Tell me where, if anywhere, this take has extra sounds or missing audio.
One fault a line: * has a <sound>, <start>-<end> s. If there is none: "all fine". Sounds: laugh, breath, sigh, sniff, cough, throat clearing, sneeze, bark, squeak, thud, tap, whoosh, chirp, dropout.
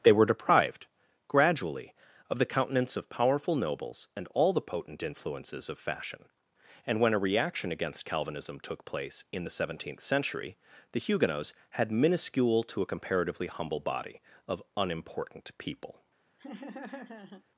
* has a laugh, 16.4-17.4 s